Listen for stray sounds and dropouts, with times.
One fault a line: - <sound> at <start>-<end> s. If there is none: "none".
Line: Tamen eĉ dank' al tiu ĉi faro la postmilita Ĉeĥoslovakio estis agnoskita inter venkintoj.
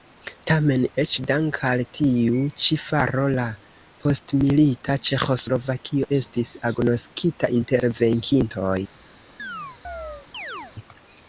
- chirp at 9.4-10.7 s